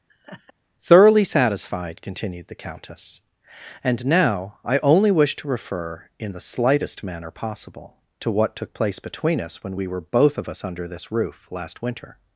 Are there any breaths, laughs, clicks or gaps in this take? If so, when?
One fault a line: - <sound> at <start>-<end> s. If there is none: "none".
- laugh at 0.1-0.5 s